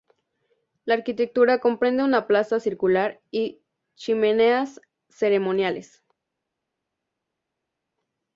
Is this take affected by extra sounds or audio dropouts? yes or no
no